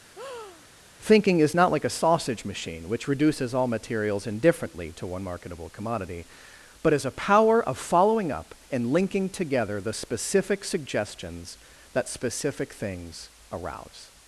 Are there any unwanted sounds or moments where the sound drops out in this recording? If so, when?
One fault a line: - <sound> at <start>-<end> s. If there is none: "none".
- breath at 0.2-0.7 s